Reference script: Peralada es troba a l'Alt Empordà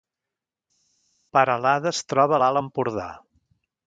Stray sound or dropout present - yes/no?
no